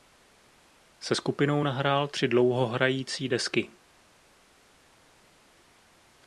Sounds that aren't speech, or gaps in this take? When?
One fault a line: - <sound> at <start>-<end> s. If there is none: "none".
none